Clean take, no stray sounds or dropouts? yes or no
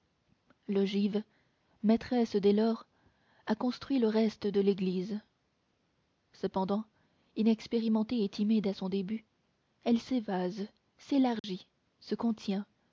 no